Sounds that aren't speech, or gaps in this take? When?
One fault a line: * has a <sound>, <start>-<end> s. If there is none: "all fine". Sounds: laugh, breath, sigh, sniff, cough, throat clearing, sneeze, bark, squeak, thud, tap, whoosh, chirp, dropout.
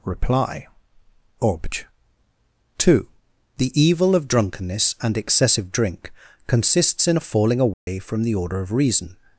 * has a dropout, 7.7-7.9 s